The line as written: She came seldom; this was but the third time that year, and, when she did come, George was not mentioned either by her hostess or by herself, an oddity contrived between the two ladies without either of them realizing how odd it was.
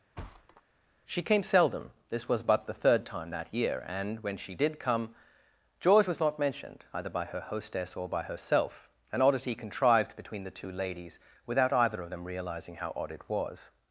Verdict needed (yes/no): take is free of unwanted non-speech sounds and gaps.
no